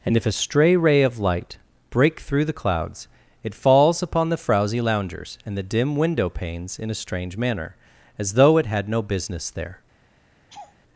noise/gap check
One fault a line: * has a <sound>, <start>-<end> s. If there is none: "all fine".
* has a laugh, 10.5-10.8 s